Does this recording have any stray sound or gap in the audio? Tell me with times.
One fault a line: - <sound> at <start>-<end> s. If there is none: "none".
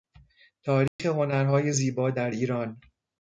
- dropout at 0.9-1.0 s